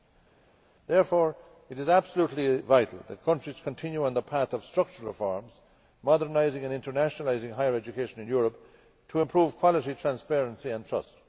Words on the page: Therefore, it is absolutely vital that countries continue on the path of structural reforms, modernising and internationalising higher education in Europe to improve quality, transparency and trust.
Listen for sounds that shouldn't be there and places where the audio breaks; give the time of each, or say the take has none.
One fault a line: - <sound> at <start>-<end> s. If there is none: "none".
none